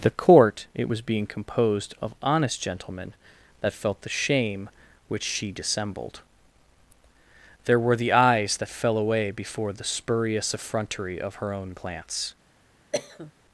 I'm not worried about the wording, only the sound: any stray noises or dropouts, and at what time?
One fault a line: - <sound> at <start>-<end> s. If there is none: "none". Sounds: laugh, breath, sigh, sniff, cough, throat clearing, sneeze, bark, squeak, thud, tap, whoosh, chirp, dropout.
- cough at 12.9-13.3 s